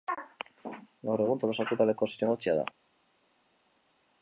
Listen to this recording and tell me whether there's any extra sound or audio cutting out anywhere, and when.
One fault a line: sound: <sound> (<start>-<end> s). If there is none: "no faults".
no faults